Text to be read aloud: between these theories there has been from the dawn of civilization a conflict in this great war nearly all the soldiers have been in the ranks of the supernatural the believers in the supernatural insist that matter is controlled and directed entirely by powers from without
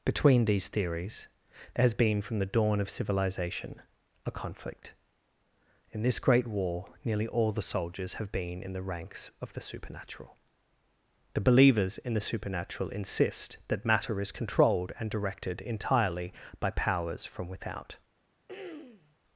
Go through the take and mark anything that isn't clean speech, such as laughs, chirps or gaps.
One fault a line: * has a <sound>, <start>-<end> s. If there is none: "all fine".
* has a throat clearing, 18.5-19.2 s